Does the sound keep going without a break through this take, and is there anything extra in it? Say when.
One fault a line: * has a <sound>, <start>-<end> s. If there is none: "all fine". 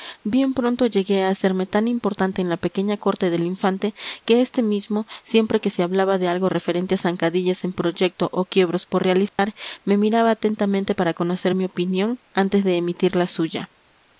* has a dropout, 9.3-9.4 s